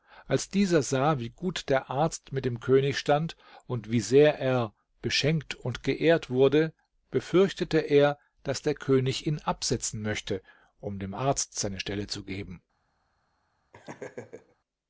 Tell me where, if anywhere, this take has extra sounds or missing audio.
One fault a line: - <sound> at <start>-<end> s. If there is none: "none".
- laugh at 13.7-14.6 s